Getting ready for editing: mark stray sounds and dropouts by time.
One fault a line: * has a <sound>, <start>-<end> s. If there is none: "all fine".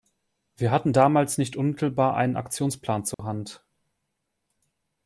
* has a dropout, 3.1-3.2 s